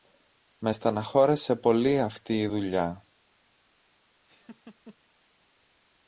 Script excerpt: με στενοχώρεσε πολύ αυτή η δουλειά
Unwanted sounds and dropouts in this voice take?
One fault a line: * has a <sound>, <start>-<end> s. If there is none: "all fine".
* has a laugh, 4.3-5.0 s